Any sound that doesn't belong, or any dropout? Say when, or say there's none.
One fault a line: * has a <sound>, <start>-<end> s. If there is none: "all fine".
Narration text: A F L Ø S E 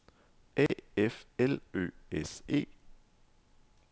* has a dropout, 0.7-0.7 s